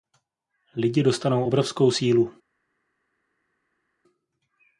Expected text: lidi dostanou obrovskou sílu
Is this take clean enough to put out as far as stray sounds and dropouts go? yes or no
yes